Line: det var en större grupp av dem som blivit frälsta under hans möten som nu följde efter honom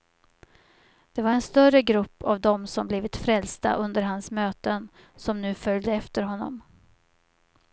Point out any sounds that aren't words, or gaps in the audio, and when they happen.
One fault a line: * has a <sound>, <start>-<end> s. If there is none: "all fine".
all fine